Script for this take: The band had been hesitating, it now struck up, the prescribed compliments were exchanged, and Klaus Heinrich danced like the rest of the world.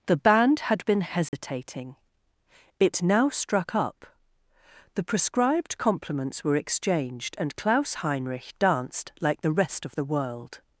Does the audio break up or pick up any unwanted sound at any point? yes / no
yes